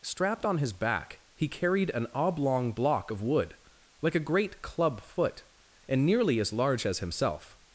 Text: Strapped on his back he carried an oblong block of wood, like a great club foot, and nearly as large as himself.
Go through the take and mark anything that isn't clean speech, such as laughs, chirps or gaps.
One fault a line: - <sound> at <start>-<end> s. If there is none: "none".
none